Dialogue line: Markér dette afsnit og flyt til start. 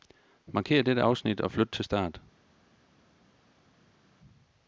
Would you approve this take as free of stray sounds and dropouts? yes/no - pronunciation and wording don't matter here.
yes